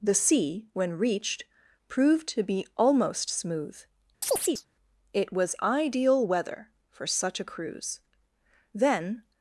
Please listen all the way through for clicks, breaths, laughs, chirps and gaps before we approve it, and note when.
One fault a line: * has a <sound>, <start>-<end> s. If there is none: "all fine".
* has a chirp, 4.2-4.7 s